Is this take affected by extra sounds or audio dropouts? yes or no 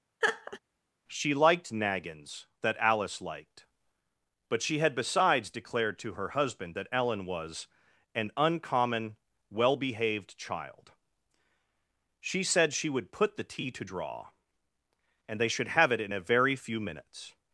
yes